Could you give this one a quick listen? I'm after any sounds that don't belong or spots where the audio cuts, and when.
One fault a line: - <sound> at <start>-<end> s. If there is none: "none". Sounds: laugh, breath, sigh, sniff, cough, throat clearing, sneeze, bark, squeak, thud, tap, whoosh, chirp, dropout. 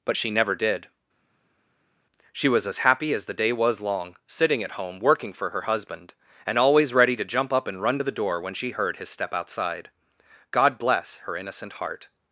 none